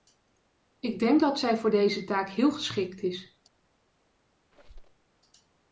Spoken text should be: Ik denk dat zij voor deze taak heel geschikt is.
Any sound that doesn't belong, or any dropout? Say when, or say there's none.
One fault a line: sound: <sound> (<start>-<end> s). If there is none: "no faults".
sound: squeak (4.5-5.0 s)